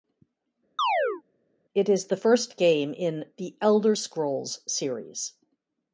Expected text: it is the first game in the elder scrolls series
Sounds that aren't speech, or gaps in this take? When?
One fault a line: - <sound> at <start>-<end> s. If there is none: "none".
- chirp at 0.8-1.2 s